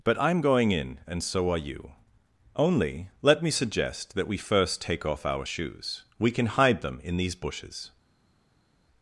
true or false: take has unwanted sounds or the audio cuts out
false